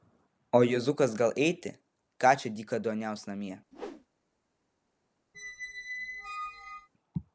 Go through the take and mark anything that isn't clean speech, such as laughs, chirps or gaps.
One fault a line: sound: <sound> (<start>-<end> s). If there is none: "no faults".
sound: whoosh (3.7-4.1 s)
sound: squeak (5.3-6.9 s)